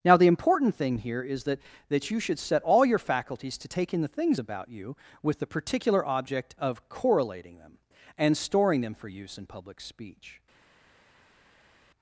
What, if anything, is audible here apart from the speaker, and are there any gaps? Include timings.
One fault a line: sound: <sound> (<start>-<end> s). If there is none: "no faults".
no faults